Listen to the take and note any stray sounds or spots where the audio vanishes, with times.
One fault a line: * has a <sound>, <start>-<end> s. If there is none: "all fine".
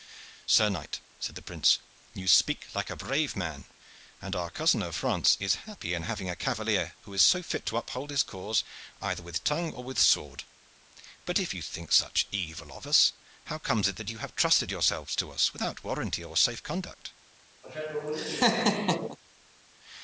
* has a laugh, 17.6-19.2 s